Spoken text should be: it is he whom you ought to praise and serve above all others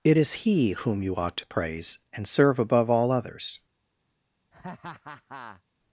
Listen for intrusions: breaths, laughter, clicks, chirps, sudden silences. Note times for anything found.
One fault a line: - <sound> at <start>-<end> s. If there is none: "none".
- laugh at 4.5-5.6 s